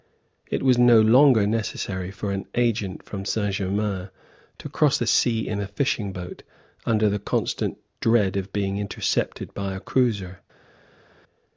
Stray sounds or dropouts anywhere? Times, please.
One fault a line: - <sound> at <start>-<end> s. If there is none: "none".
none